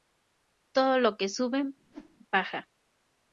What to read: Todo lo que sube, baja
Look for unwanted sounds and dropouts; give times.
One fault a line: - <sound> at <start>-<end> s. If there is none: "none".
- whoosh at 1.8-2.2 s